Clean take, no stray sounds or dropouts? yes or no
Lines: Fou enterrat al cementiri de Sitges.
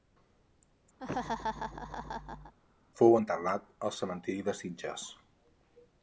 no